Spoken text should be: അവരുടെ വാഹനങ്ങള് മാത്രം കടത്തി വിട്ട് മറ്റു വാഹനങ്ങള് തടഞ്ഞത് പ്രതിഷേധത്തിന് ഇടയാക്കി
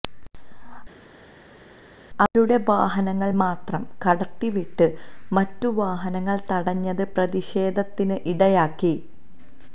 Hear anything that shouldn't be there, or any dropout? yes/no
no